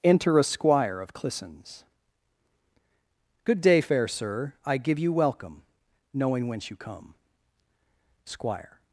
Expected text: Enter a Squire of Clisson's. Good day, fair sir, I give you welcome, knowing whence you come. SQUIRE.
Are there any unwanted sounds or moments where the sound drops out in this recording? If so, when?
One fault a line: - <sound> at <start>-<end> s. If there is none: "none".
none